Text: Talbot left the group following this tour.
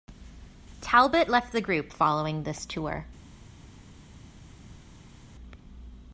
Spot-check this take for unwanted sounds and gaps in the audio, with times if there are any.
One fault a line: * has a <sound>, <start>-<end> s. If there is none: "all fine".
all fine